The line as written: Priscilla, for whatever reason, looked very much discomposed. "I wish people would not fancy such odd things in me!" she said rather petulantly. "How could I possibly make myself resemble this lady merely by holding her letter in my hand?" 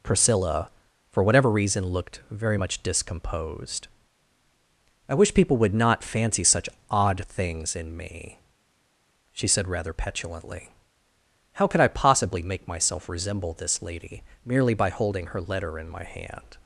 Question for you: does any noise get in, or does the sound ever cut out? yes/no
no